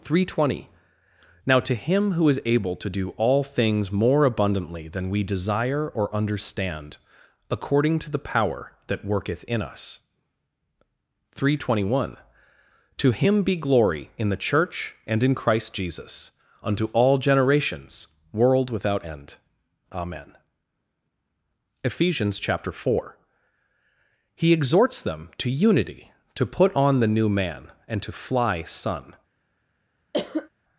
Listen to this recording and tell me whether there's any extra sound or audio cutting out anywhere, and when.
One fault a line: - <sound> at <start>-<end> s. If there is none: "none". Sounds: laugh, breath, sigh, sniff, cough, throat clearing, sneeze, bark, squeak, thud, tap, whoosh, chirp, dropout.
- cough at 30.1-30.5 s